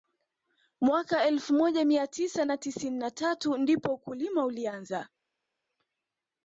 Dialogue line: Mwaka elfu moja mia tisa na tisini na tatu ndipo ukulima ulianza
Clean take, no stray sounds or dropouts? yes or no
yes